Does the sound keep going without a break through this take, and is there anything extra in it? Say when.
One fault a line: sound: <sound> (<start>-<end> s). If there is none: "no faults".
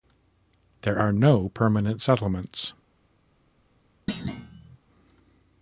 sound: thud (4.1-4.8 s)